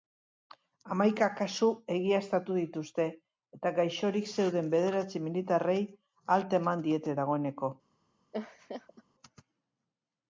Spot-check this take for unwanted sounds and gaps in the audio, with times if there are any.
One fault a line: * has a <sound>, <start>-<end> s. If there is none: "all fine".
* has a laugh, 8.3-9.0 s